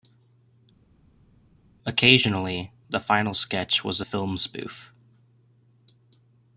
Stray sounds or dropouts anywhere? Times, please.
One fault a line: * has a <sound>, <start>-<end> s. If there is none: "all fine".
all fine